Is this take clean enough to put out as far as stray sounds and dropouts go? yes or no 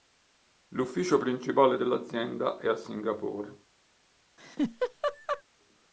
no